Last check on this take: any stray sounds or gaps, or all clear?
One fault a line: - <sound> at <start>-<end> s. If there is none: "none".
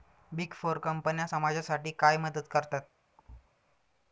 - thud at 3.2-3.5 s